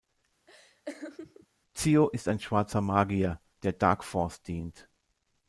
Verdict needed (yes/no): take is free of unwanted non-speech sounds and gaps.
no